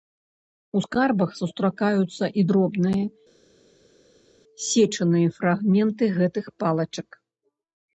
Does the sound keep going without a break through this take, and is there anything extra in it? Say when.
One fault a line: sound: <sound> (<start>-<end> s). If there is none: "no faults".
no faults